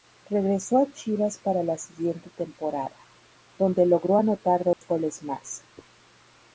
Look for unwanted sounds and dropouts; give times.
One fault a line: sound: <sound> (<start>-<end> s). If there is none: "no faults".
sound: dropout (4.7-4.8 s)